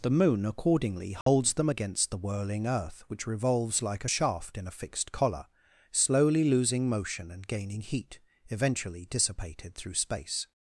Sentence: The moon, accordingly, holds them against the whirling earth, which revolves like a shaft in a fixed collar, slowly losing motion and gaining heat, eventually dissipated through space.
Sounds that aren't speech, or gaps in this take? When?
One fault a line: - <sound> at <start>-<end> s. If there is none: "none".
- dropout at 1.2-1.3 s